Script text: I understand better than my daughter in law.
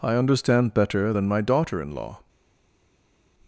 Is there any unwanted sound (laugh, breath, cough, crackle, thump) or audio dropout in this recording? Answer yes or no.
no